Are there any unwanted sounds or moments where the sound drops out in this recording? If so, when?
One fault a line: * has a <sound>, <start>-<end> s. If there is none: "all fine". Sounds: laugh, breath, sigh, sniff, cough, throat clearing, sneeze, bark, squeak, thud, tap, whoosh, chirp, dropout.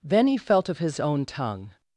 all fine